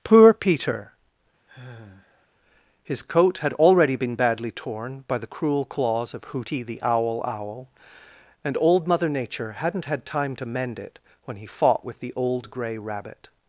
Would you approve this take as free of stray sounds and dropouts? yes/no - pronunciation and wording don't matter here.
no